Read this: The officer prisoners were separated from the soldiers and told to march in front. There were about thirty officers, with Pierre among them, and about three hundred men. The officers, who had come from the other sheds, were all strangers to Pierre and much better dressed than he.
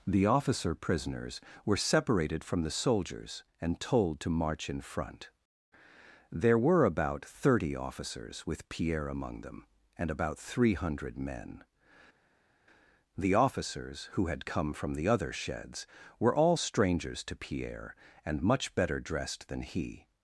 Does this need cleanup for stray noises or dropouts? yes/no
no